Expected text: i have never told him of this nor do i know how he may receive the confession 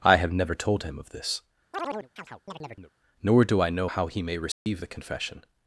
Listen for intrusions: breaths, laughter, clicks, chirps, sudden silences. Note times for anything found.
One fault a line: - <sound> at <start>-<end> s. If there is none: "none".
- chirp at 1.7-2.9 s
- dropout at 4.5-4.7 s